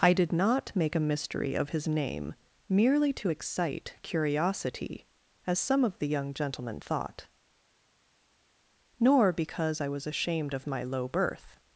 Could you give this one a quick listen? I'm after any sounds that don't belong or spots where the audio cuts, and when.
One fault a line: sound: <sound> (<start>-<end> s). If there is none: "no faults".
no faults